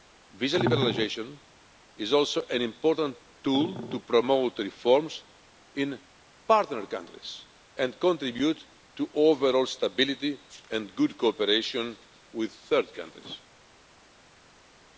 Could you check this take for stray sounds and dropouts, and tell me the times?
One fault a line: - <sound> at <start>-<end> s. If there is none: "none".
none